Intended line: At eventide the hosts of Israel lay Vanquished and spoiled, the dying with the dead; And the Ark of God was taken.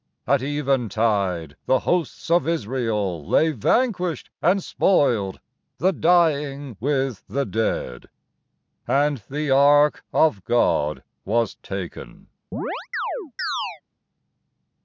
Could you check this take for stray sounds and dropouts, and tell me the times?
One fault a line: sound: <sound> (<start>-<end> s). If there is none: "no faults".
sound: chirp (12.5-13.8 s)